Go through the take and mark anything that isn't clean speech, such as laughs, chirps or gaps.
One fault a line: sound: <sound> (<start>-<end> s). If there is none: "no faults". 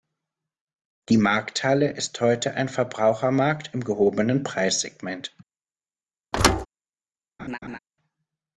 sound: thud (6.3-6.7 s)
sound: laugh (7.4-7.8 s)